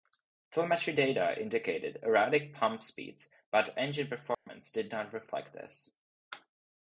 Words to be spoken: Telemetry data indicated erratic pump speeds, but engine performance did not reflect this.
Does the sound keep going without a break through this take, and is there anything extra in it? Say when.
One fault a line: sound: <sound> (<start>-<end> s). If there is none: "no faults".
sound: dropout (4.3-4.5 s)